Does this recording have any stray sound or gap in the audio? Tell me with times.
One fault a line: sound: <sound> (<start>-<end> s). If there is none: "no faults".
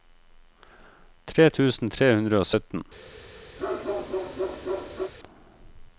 sound: bark (3.6-5.1 s)